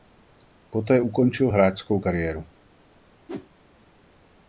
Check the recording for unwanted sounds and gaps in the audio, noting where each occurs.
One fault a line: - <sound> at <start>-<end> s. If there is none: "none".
- whoosh at 3.3-3.5 s